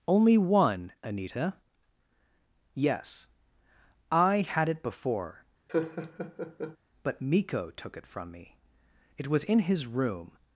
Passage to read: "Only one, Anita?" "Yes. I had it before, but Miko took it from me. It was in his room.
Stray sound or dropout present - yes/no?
yes